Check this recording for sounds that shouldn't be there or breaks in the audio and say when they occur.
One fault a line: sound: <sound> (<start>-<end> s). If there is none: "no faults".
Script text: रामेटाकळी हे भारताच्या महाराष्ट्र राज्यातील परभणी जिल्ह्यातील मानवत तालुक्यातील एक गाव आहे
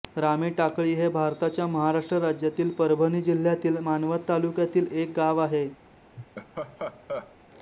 sound: laugh (6.2-7.4 s)